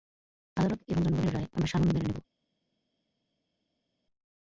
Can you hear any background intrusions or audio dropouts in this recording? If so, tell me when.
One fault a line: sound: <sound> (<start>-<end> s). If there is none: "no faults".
no faults